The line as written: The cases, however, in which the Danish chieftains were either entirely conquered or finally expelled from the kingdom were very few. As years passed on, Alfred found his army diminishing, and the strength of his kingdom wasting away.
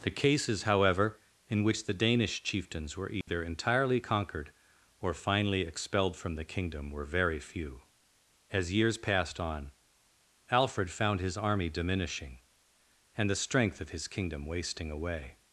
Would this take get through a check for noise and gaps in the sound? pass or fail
fail